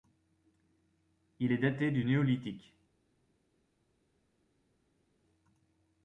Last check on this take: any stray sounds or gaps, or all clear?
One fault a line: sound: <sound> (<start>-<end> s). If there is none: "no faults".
no faults